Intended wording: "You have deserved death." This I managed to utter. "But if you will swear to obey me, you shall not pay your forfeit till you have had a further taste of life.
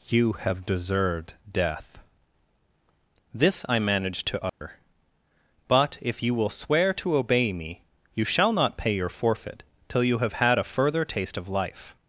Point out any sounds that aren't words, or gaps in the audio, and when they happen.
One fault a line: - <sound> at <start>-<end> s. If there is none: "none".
- dropout at 4.5-4.6 s